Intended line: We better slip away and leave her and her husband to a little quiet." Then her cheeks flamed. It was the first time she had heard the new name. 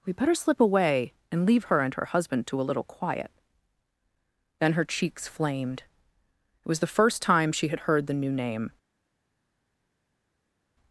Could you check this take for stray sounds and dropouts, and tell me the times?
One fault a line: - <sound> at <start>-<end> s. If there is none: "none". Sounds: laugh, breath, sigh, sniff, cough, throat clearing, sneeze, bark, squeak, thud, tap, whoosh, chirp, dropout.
none